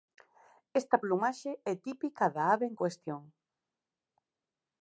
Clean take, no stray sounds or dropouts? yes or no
yes